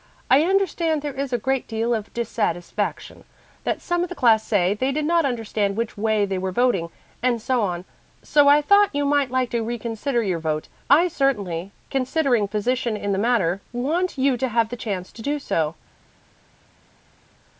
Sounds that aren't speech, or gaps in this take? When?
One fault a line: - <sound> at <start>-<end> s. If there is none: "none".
none